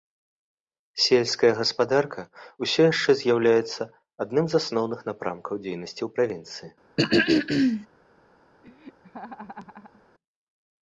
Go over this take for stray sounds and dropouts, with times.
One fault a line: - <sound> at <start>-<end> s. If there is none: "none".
- throat clearing at 7.0-7.9 s
- laugh at 8.6-10.0 s